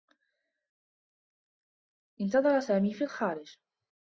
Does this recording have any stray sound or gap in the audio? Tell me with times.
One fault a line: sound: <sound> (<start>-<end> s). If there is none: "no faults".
no faults